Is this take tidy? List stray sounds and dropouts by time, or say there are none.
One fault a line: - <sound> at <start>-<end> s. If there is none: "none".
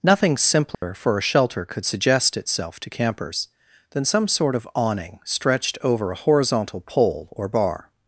- dropout at 0.7-0.8 s